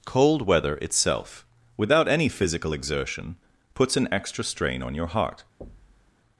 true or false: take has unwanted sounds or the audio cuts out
true